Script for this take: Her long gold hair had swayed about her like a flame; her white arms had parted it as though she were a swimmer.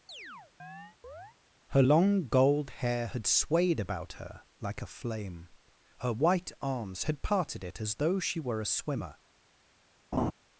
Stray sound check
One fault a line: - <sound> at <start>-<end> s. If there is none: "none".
- chirp at 0.1-1.4 s
- laugh at 10.1-10.3 s